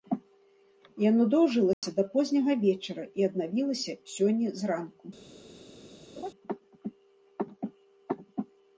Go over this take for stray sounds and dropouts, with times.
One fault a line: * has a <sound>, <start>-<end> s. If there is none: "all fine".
* has a dropout, 1.7-1.8 s
* has a laugh, 6.2-6.3 s